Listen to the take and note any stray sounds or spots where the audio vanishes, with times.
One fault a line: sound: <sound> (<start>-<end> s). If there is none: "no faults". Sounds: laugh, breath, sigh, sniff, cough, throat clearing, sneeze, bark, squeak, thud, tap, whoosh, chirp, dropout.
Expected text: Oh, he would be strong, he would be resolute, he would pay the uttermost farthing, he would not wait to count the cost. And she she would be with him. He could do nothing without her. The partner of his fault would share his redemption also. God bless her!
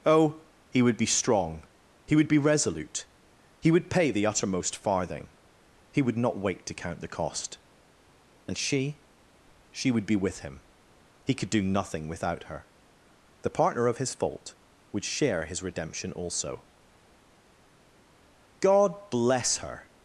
no faults